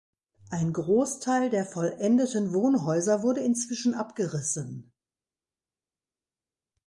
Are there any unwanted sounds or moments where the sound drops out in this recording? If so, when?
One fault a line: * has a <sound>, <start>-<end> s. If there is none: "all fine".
all fine